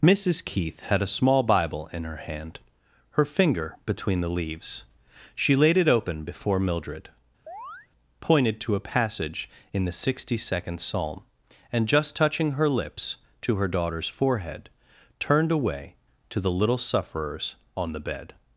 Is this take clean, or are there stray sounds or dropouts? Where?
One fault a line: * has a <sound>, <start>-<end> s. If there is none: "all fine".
* has a chirp, 7.5-7.9 s